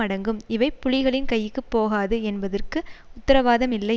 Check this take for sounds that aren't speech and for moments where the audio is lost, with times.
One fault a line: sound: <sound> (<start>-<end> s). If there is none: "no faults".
no faults